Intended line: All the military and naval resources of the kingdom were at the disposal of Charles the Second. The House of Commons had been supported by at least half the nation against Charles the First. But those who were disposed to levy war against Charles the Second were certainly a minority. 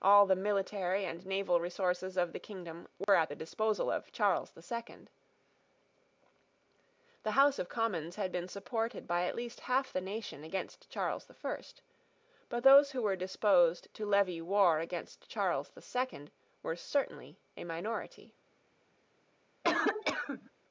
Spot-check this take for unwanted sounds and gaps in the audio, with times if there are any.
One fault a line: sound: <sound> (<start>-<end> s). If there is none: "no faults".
sound: dropout (3.0-3.1 s)
sound: cough (19.6-20.5 s)